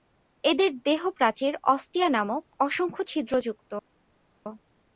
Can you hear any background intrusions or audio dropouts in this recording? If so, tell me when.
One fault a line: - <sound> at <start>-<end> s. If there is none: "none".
none